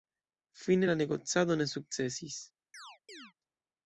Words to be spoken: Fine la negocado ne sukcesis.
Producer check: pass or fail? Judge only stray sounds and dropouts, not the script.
fail